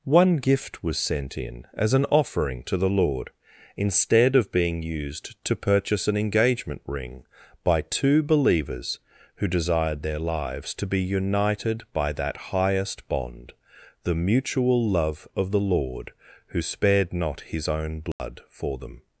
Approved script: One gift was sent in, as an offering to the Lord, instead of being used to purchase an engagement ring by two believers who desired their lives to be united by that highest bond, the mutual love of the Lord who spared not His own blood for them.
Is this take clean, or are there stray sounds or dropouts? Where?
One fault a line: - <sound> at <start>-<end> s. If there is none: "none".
- dropout at 18.1-18.2 s